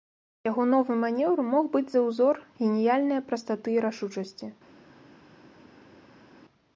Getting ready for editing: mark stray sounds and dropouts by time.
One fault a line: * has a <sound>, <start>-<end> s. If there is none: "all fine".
all fine